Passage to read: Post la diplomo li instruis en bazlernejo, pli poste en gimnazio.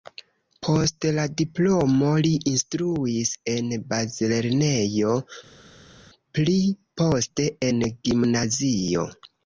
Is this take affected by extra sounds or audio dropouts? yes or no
no